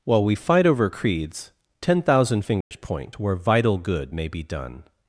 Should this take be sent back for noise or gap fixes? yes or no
yes